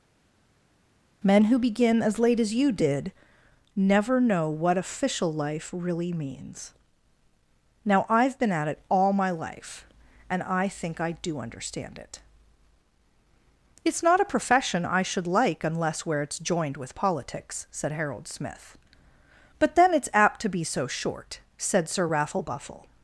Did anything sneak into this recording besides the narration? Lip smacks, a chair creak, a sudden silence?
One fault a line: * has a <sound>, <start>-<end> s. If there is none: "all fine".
all fine